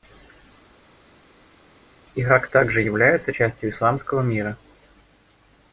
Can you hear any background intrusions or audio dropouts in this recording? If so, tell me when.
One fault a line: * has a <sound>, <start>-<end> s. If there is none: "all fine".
all fine